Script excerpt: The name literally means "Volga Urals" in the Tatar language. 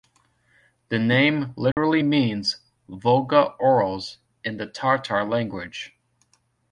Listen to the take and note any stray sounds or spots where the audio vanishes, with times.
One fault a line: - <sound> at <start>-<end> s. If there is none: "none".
- dropout at 1.7-1.8 s